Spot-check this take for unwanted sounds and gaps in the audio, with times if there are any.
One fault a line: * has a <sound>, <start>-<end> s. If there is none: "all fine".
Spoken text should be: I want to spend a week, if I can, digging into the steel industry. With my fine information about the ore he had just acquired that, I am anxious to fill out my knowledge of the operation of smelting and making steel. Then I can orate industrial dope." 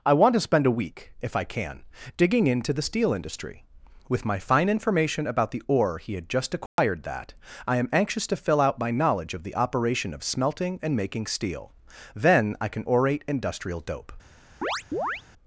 * has a dropout, 6.7-6.8 s
* has a chirp, 14.6-15.2 s